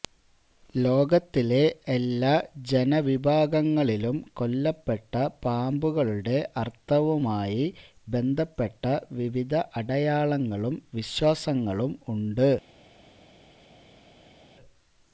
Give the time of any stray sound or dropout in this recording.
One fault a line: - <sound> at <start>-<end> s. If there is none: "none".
none